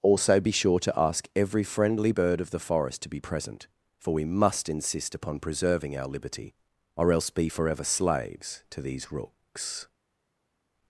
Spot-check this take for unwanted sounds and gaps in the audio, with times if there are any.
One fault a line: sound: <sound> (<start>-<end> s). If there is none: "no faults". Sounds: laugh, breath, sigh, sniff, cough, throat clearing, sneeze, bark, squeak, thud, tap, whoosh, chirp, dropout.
no faults